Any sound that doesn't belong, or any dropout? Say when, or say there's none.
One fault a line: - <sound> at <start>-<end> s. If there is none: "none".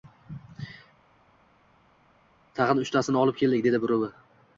none